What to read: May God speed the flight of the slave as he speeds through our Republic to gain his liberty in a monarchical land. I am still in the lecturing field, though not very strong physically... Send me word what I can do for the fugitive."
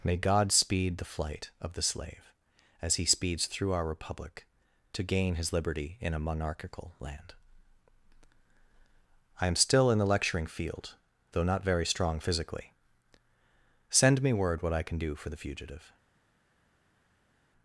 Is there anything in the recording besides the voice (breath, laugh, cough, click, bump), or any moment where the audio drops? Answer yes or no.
no